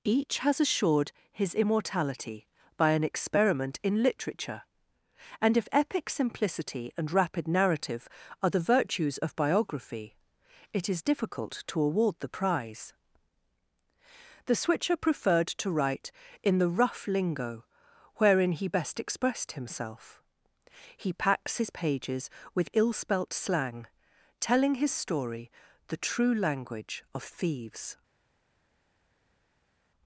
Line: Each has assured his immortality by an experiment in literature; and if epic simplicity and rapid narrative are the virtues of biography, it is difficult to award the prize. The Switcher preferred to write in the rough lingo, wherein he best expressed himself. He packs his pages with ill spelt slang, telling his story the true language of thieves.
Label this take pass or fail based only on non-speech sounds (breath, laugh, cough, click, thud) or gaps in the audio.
pass